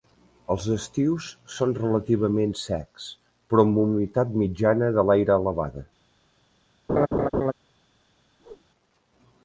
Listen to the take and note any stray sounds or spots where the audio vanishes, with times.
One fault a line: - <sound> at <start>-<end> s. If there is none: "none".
- laugh at 6.9-7.5 s
- whoosh at 8.4-8.7 s